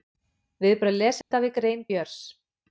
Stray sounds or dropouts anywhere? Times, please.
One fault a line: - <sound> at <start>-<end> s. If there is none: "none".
- dropout at 1.2-1.3 s